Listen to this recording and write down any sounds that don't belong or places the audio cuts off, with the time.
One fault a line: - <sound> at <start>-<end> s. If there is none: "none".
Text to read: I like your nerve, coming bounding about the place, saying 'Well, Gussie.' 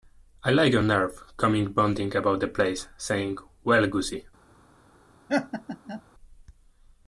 - laugh at 5.3-6.0 s